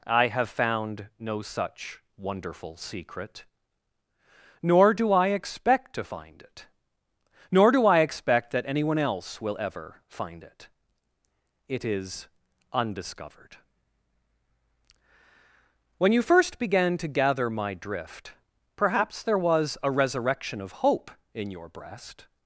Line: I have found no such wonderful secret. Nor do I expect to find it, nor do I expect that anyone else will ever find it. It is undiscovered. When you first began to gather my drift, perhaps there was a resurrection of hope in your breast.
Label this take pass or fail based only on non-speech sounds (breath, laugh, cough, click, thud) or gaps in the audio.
pass